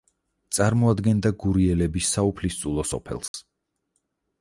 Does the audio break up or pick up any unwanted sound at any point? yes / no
yes